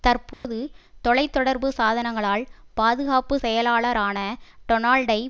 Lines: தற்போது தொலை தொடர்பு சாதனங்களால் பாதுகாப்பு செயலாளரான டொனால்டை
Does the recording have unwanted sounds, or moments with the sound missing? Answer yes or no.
yes